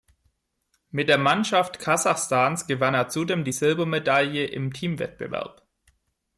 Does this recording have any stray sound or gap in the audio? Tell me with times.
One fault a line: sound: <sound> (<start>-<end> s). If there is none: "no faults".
no faults